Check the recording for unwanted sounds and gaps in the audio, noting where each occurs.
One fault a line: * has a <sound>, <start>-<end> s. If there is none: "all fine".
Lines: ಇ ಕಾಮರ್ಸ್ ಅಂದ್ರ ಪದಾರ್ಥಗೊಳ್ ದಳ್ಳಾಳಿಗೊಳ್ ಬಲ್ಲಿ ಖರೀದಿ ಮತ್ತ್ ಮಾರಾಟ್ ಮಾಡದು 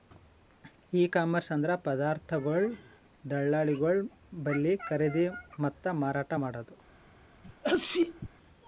* has a sneeze, 7.4-8.3 s